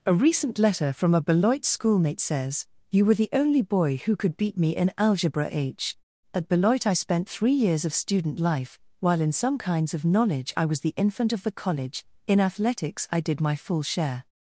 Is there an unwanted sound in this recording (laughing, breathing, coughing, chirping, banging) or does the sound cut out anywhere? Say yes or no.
no